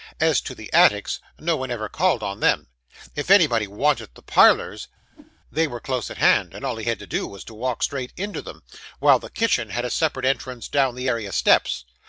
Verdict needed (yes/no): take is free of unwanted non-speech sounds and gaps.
no